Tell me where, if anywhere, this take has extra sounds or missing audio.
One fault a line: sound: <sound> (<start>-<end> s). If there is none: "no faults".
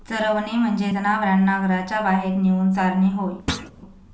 sound: thud (3.5-3.7 s)